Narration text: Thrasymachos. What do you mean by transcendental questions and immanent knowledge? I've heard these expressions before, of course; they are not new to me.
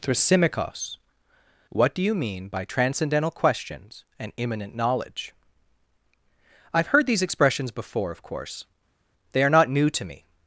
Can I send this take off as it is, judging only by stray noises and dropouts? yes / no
yes